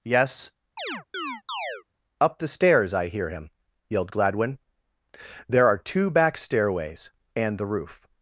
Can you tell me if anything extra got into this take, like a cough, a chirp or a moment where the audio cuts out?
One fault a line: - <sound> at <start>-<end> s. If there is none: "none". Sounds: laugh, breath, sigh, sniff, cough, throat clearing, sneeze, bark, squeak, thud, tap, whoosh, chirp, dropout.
- chirp at 0.8-1.8 s